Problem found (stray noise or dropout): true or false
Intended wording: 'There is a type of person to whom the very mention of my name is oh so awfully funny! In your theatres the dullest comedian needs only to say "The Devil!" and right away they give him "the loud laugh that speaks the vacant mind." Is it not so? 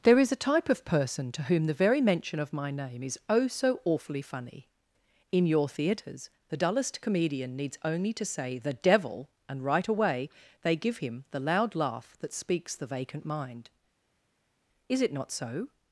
false